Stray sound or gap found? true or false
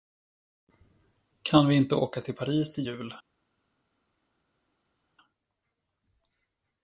false